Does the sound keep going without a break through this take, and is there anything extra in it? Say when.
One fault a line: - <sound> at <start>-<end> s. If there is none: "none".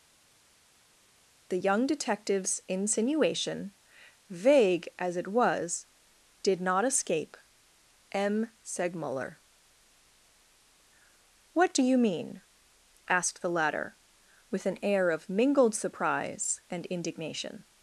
none